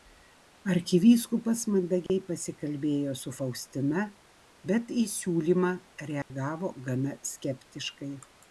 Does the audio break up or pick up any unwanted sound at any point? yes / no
yes